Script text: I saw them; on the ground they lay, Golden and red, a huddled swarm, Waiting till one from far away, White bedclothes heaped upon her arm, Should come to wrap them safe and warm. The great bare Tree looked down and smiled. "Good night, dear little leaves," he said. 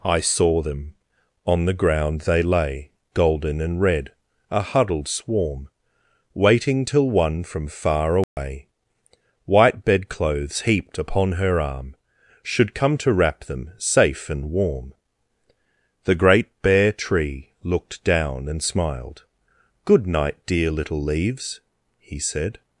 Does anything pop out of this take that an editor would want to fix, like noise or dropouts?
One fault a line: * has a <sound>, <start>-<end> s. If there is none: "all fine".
* has a dropout, 8.2-8.4 s